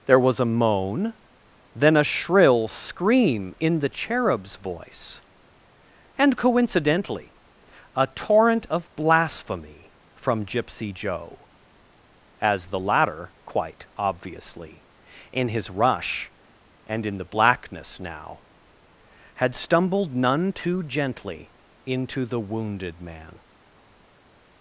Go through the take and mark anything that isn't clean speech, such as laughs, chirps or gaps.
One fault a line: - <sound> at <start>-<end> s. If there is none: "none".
none